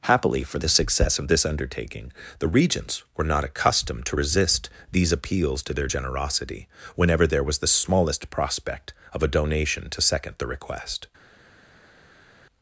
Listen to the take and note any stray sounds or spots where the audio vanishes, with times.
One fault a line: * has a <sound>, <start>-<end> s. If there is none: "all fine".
all fine